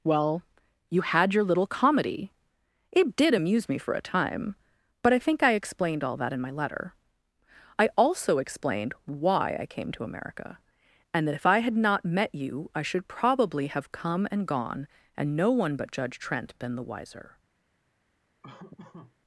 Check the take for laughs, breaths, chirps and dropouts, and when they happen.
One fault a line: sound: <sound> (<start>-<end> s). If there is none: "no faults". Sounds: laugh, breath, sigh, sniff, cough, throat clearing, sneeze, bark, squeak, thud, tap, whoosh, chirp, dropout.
sound: laugh (18.4-19.2 s)